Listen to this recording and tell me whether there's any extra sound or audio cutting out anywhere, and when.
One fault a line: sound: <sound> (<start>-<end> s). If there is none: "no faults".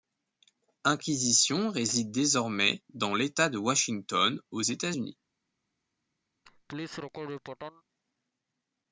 sound: laugh (6.4-7.8 s)